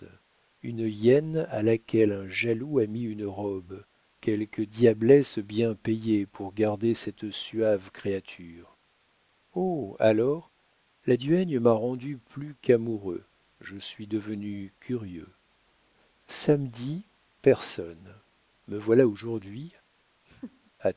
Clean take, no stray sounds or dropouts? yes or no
no